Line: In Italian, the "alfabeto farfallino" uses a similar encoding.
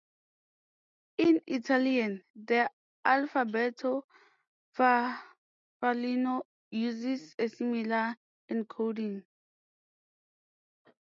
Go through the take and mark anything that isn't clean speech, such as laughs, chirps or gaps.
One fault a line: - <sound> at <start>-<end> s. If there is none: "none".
none